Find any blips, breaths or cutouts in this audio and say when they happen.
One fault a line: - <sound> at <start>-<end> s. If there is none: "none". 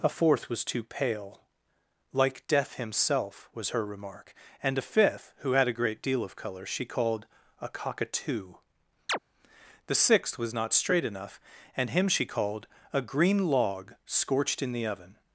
- chirp at 9.1-9.2 s